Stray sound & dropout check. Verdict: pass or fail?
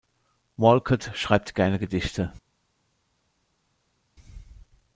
pass